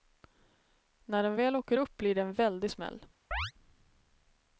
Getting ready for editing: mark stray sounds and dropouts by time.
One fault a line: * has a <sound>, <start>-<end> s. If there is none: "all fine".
* has a chirp, 3.3-3.5 s